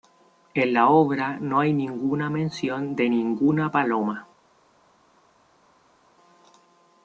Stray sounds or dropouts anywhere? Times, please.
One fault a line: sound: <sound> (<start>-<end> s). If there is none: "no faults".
no faults